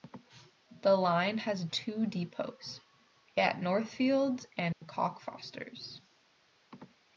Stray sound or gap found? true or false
true